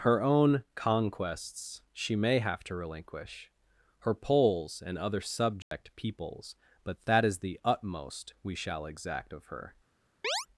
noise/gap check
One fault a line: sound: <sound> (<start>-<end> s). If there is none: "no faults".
sound: dropout (5.6-5.7 s)
sound: chirp (10.2-10.5 s)